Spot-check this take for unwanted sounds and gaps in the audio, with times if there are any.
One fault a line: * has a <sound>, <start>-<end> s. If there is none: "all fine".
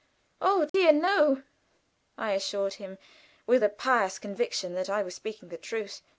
* has a dropout, 0.7-0.7 s